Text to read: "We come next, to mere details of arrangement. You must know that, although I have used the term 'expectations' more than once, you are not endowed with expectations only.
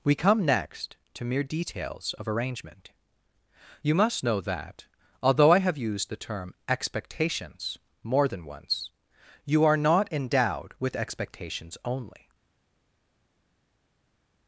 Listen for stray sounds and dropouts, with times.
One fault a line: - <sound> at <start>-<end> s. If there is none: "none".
none